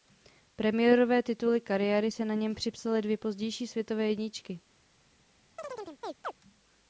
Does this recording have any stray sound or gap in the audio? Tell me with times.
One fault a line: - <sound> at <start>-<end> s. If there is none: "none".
- chirp at 5.6-6.3 s